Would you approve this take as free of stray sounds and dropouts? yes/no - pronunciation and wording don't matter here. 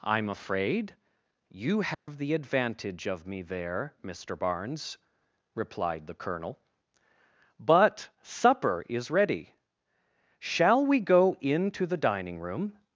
no